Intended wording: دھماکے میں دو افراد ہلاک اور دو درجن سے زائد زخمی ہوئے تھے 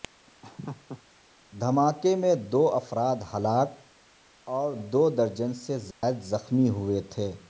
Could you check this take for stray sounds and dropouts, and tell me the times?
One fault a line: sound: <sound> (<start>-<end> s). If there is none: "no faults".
sound: laugh (0.4-1.0 s)
sound: dropout (5.9-6.0 s)